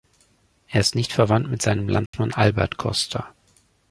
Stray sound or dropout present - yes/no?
yes